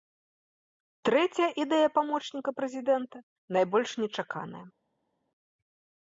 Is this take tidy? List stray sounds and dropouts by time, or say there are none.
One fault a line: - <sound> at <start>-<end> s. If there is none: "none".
none